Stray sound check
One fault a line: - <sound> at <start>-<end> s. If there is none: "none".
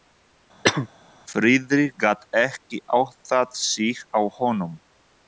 - cough at 0.6-0.9 s